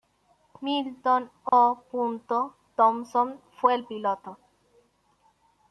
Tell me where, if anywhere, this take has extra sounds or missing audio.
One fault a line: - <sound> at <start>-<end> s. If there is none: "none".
- dropout at 1.5-1.5 s